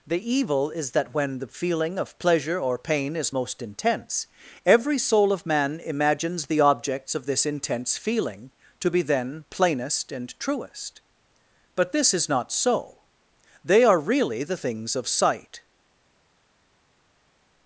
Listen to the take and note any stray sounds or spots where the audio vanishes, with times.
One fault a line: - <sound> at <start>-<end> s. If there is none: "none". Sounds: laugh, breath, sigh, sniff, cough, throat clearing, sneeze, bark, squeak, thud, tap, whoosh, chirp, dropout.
none